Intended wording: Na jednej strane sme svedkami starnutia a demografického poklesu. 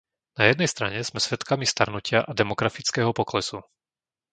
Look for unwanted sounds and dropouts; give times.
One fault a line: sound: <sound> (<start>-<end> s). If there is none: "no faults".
no faults